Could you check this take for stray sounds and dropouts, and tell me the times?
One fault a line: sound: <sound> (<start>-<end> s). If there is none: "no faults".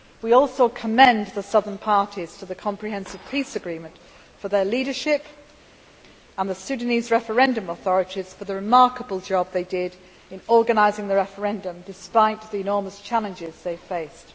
no faults